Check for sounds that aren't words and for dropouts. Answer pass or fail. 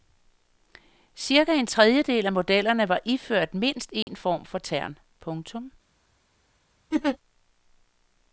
fail